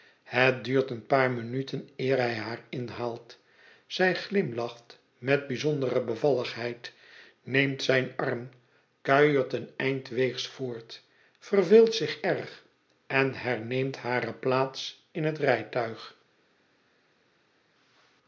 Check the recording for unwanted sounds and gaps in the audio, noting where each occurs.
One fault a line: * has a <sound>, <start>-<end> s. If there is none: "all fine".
all fine